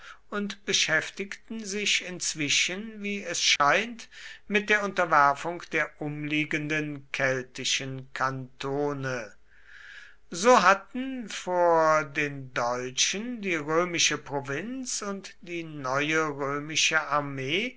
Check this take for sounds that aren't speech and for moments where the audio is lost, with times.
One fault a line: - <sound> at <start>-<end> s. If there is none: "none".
- dropout at 3.6-3.6 s